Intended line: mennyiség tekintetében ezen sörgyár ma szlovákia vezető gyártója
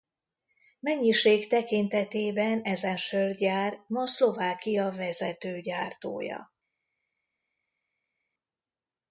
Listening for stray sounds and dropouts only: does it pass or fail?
pass